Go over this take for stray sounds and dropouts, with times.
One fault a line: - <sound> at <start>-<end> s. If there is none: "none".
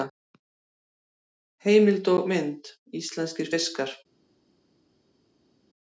none